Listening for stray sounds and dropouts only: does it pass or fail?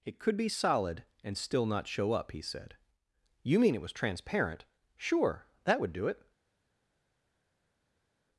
pass